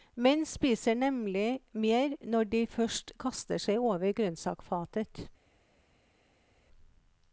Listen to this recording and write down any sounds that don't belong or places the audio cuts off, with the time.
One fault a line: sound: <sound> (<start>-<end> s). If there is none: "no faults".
no faults